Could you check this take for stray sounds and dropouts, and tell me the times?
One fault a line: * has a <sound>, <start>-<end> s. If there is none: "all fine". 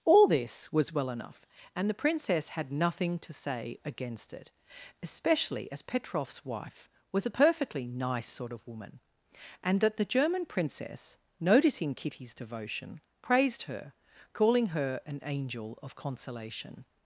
all fine